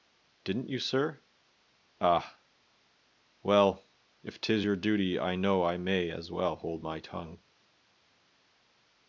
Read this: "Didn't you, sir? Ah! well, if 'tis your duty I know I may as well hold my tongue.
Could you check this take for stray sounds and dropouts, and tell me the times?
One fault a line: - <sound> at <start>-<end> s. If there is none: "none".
none